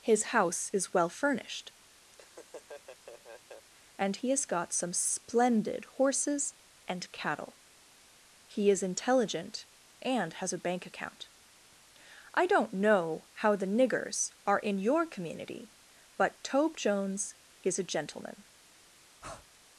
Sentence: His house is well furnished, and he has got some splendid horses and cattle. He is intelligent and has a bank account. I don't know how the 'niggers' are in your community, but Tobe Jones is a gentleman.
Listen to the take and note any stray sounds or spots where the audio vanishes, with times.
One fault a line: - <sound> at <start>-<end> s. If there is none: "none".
- laugh at 2.1-3.7 s
- breath at 19.2-19.5 s